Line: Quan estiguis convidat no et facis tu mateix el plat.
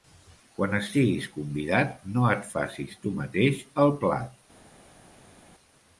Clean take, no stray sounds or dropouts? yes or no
yes